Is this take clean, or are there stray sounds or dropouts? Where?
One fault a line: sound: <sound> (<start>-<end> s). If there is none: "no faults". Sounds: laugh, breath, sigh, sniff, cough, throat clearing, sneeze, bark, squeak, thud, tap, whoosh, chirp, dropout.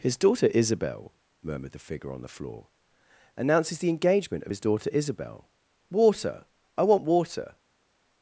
no faults